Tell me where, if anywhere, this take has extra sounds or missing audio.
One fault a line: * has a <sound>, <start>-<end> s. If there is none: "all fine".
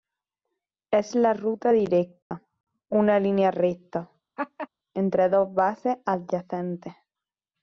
* has a dropout, 2.2-2.3 s
* has a laugh, 4.4-4.7 s